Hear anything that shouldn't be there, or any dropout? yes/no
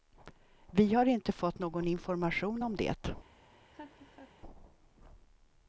yes